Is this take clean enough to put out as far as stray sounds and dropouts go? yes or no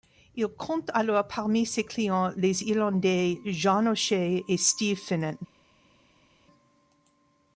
yes